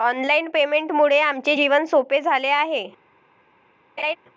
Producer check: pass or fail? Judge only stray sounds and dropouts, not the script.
fail